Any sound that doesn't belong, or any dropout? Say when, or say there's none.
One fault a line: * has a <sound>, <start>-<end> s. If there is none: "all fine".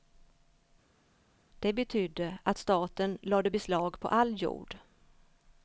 all fine